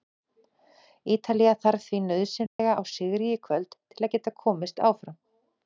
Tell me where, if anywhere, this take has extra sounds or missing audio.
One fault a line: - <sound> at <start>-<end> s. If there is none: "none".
- dropout at 2.5-2.6 s